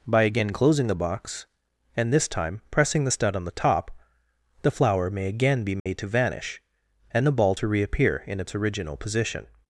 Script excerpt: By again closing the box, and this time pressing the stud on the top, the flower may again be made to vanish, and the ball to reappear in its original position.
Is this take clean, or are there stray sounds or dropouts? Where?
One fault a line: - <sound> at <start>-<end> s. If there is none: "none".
- dropout at 5.8-5.9 s